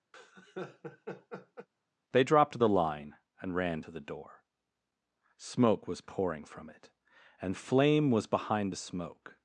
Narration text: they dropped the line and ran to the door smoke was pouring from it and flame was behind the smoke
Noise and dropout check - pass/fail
fail